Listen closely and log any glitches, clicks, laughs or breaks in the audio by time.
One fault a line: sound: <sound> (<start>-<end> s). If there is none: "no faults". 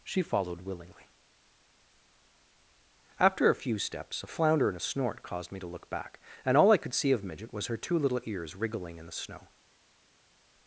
no faults